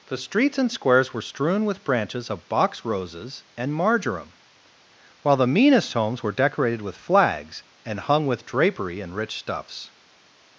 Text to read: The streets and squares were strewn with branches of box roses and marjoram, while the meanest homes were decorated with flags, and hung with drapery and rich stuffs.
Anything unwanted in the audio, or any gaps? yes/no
no